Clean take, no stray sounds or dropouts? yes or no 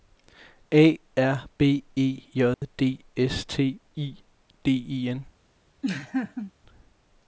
no